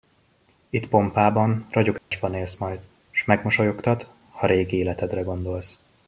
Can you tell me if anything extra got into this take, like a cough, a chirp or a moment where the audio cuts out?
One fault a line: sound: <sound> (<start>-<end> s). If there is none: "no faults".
sound: dropout (2.0-2.1 s)